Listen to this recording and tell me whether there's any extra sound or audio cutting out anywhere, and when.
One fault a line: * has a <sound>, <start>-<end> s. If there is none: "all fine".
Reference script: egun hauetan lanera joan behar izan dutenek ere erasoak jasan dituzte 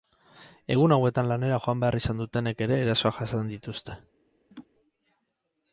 * has a laugh, 4.5-4.7 s